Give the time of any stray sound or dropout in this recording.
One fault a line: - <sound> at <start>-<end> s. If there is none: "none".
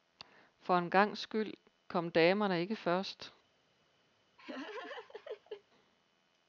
- laugh at 4.4-5.6 s